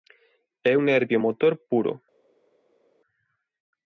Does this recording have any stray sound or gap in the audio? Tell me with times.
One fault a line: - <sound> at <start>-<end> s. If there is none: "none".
none